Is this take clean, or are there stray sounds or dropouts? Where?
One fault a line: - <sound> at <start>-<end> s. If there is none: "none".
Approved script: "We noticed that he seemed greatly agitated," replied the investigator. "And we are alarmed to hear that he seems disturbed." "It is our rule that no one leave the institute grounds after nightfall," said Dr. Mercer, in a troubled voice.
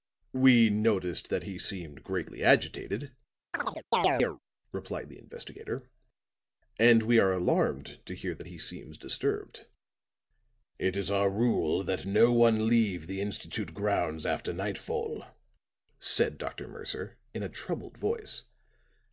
- chirp at 3.5-4.4 s